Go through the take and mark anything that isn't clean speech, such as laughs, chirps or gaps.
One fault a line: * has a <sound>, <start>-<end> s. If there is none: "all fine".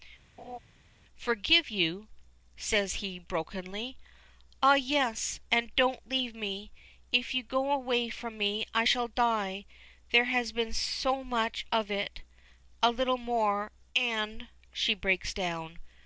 * has a laugh, 0.4-0.6 s